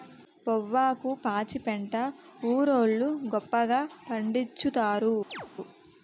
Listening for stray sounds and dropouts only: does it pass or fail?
fail